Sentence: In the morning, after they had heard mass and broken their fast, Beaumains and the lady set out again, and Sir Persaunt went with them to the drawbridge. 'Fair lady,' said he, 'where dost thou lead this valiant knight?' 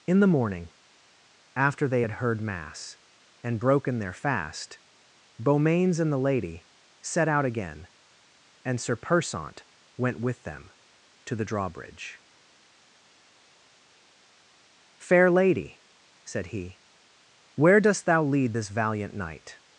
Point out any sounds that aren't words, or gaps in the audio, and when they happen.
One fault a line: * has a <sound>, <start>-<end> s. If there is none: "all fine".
all fine